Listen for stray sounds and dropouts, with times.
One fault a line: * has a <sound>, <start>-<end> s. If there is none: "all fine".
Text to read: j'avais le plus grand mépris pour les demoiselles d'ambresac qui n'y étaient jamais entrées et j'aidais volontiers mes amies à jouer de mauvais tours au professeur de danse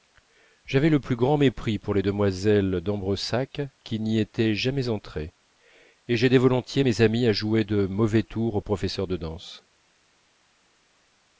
all fine